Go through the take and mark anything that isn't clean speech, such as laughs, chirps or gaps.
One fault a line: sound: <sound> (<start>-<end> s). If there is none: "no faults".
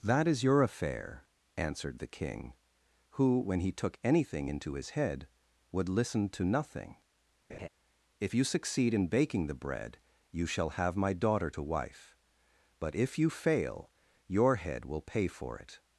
sound: laugh (7.5-7.7 s)